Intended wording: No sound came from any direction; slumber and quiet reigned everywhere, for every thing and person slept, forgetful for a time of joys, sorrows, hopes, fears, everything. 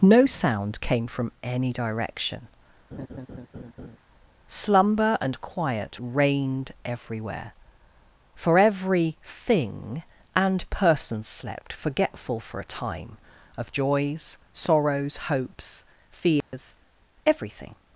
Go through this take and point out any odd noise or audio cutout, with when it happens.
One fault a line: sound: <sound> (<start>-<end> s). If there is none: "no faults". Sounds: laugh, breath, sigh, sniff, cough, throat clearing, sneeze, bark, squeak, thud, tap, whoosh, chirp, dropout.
sound: laugh (2.9-4.0 s)
sound: dropout (16.4-16.5 s)